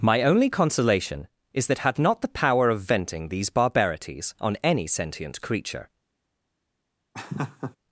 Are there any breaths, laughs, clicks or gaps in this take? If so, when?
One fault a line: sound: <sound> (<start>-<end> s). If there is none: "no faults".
sound: laugh (7.1-7.8 s)